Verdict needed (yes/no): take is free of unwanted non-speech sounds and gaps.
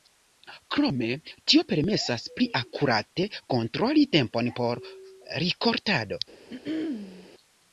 no